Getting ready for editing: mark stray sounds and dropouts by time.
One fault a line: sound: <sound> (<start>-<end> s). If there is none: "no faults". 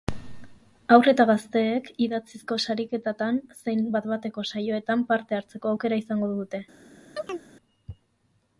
sound: chirp (7.2-7.4 s)